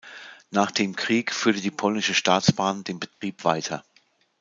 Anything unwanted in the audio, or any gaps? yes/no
yes